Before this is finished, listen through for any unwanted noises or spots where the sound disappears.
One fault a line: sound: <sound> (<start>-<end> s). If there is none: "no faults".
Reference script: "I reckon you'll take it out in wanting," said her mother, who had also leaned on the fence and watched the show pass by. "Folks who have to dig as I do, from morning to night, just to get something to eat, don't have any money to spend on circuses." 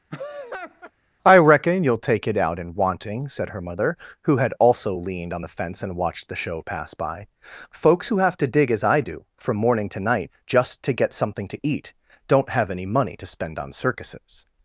sound: laugh (0.1-0.9 s)